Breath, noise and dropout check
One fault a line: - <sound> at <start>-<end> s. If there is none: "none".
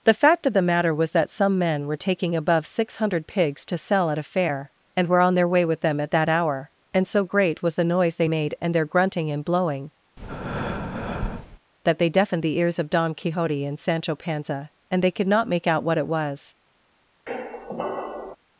- breath at 10.2-11.6 s
- squeak at 17.3-18.4 s